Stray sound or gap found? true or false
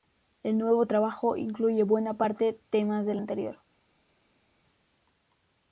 false